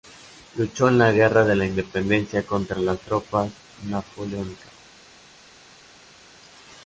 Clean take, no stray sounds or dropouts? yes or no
yes